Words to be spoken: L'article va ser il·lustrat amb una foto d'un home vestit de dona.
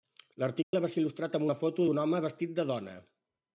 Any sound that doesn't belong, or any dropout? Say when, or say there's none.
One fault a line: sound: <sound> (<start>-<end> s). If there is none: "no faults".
sound: dropout (0.6-0.7 s)